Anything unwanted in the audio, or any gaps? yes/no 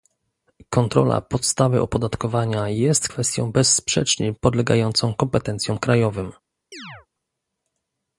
yes